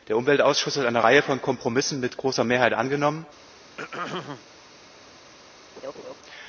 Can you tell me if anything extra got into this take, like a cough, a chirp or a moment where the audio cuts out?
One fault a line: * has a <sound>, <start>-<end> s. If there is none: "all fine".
* has a throat clearing, 3.8-4.4 s
* has a laugh, 5.8-6.1 s